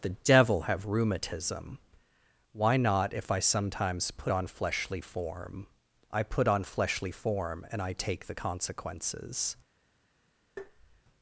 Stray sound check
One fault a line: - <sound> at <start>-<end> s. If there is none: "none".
- tap at 10.6-11.0 s